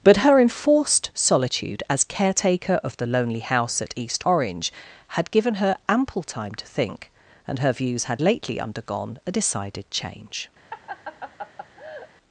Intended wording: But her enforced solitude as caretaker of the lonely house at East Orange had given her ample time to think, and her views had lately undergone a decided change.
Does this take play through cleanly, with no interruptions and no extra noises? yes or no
no